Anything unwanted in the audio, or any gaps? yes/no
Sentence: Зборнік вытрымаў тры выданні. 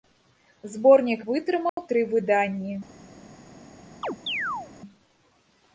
yes